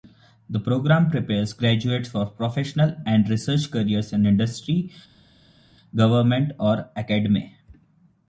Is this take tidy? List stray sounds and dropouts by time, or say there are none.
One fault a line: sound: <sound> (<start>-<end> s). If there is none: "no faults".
no faults